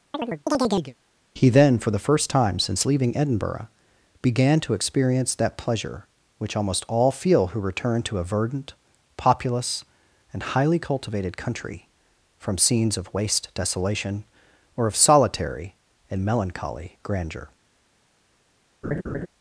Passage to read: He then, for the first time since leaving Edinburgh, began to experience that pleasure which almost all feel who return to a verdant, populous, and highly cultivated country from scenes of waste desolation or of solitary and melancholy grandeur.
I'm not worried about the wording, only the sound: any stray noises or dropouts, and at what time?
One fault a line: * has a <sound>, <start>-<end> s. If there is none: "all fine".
* has a chirp, 0.1-1.0 s
* has a laugh, 18.8-19.3 s